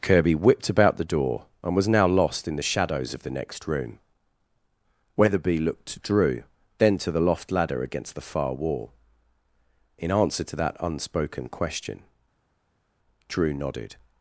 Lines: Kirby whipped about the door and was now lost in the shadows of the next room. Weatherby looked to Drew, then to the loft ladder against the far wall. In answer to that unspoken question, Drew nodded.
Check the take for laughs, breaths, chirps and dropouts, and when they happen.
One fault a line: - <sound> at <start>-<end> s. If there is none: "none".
none